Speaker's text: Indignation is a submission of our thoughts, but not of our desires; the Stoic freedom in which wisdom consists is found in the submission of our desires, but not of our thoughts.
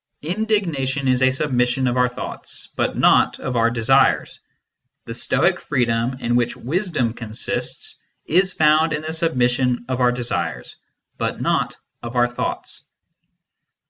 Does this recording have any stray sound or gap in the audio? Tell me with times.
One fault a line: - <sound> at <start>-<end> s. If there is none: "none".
none